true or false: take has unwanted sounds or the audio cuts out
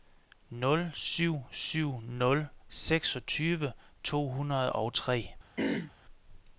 true